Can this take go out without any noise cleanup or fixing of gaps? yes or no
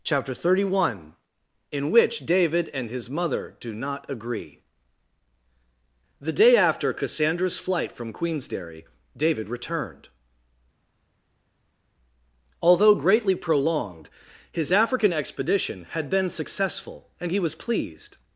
yes